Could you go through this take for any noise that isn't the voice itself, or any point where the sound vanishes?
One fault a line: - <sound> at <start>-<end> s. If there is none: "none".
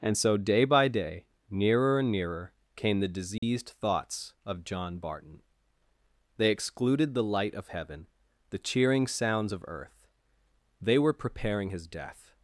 - dropout at 3.4-3.4 s